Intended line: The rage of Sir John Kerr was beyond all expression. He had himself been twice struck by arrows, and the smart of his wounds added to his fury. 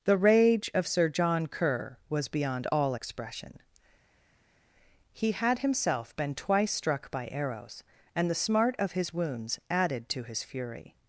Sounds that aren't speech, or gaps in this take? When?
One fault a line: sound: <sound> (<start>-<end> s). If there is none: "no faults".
no faults